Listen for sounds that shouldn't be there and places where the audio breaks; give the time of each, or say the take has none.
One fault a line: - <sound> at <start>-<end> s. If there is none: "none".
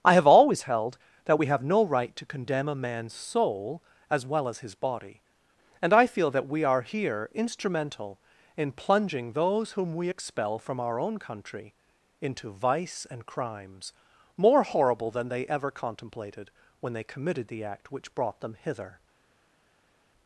none